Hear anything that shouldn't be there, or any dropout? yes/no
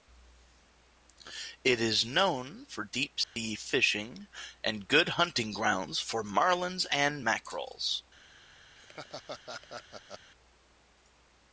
yes